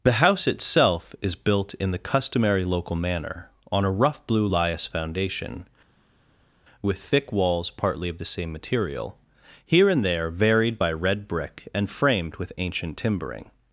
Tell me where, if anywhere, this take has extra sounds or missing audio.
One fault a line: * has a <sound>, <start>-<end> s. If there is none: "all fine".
all fine